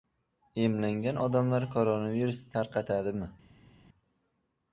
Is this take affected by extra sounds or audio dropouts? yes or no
no